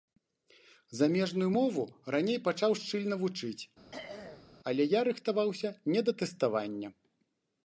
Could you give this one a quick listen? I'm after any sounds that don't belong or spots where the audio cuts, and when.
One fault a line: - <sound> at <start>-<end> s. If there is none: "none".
- throat clearing at 3.9-4.5 s